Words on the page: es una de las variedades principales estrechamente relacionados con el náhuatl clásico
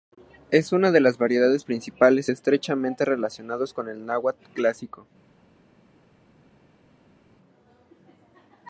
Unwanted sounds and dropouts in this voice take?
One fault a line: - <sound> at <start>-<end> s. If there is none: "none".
none